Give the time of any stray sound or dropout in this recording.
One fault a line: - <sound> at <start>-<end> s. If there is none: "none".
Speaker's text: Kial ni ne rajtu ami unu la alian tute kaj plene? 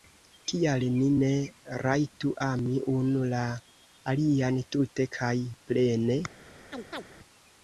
- chirp at 6.7-7.0 s